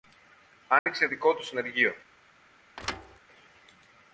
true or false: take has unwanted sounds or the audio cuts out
true